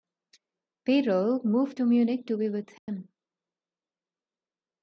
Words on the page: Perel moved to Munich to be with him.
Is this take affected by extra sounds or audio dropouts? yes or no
yes